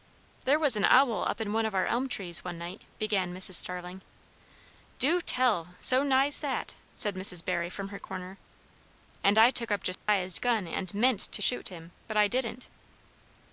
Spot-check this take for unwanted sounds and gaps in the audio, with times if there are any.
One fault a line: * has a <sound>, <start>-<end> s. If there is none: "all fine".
* has a dropout, 9.9-10.1 s